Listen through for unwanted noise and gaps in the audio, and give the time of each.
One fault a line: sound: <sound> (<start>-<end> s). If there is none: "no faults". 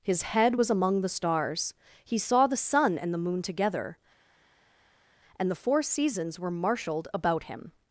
no faults